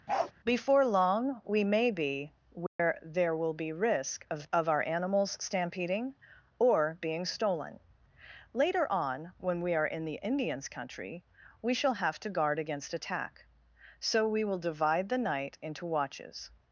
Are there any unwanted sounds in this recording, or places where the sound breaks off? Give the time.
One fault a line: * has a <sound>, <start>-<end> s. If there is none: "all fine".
* has a bark, 0.1-0.3 s
* has a dropout, 2.7-2.8 s